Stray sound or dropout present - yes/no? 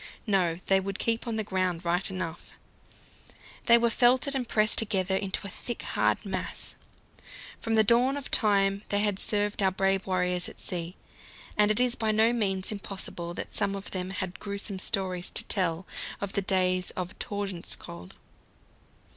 no